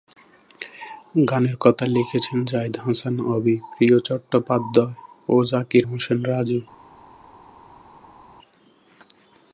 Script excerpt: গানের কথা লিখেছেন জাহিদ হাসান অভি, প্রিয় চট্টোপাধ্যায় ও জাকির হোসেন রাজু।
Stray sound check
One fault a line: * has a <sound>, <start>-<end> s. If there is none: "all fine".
all fine